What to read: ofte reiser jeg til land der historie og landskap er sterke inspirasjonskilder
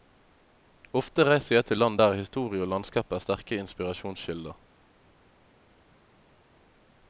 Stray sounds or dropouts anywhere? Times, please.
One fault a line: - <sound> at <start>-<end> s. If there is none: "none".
none